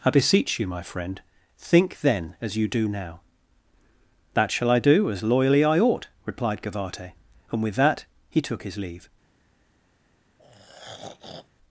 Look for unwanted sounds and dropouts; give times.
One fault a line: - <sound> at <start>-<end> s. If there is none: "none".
- throat clearing at 10.4-11.5 s